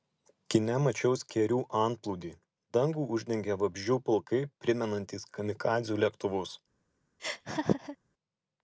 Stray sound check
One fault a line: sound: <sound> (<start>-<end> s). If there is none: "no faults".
sound: laugh (7.2-8.0 s)